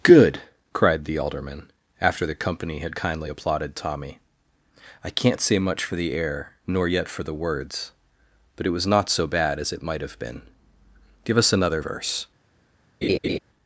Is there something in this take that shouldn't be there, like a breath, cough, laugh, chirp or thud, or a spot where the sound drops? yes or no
yes